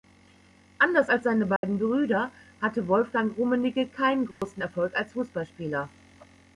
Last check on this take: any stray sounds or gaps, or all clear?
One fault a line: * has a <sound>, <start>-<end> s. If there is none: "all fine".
* has a dropout, 1.6-1.6 s
* has a dropout, 4.3-4.4 s